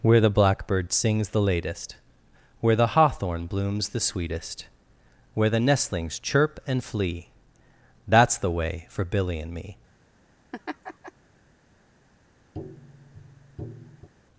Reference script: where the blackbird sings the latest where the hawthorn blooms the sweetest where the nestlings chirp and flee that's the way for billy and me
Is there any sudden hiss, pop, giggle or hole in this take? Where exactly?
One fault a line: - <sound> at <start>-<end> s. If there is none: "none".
- laugh at 10.5-11.1 s
- tap at 12.5-14.1 s